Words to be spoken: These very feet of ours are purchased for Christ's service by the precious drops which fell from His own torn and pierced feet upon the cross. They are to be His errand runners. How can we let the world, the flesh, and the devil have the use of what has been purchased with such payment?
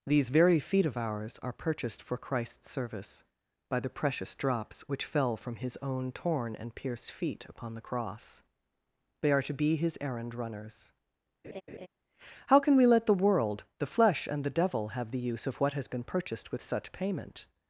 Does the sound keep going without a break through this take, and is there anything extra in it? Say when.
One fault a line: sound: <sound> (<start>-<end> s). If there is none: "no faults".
sound: laugh (11.4-11.9 s)